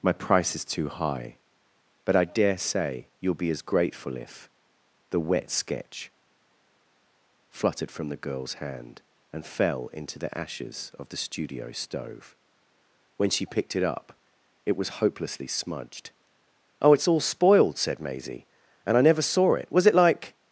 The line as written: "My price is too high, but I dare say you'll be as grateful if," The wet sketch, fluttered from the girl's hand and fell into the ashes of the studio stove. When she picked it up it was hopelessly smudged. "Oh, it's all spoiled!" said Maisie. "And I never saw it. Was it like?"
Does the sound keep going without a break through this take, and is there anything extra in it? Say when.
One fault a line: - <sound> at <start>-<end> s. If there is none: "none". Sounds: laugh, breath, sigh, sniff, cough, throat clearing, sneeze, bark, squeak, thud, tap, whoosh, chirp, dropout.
none